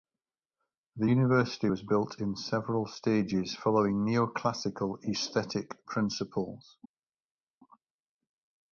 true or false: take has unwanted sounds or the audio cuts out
false